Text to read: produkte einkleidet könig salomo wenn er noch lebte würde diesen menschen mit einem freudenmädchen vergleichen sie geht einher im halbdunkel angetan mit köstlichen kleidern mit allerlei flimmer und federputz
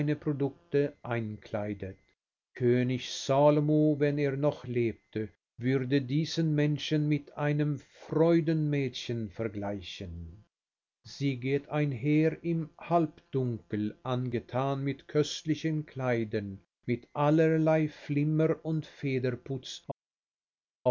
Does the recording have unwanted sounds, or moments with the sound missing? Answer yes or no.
no